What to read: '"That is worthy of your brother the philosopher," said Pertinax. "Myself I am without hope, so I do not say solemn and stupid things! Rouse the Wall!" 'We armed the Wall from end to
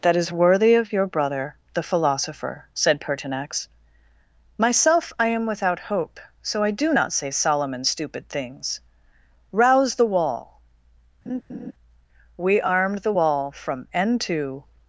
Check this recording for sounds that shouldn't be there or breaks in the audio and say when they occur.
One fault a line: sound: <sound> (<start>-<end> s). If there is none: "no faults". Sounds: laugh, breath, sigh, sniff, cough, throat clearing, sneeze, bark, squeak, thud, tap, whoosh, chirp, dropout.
sound: laugh (11.3-11.7 s)